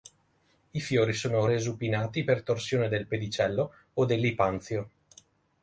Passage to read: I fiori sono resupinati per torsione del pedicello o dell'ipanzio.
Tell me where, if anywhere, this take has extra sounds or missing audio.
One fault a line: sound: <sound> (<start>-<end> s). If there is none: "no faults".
no faults